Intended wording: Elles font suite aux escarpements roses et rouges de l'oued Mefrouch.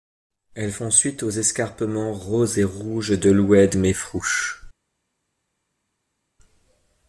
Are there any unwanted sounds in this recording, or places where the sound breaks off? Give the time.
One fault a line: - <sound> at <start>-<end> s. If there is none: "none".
none